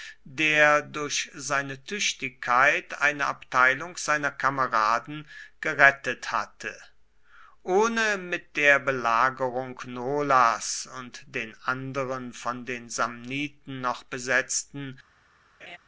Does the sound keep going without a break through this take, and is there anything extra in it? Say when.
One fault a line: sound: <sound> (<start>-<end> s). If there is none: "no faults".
sound: laugh (15.6-15.8 s)